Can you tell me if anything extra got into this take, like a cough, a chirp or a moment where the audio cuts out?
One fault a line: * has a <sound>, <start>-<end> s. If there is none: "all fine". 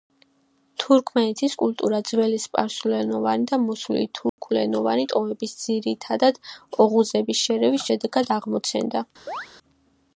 * has a dropout, 4.3-4.4 s
* has a chirp, 9.3-9.5 s